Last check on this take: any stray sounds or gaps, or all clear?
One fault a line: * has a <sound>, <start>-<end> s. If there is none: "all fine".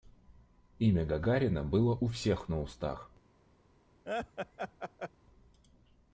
* has a laugh, 4.1-5.1 s